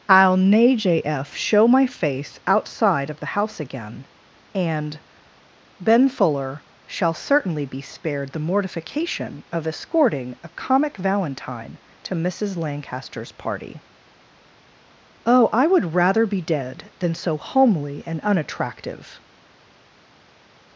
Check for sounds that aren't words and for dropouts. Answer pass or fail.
pass